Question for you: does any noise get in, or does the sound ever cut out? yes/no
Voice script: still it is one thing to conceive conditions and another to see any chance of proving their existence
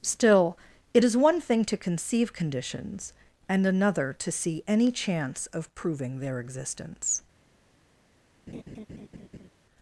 yes